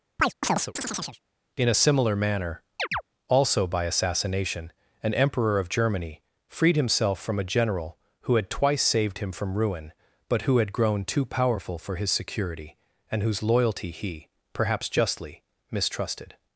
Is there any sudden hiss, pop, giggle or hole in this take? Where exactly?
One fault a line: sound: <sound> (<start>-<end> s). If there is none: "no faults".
sound: chirp (0.2-1.2 s)
sound: chirp (2.8-3.0 s)